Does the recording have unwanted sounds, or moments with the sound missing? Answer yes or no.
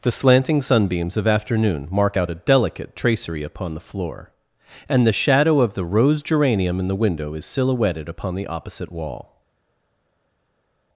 no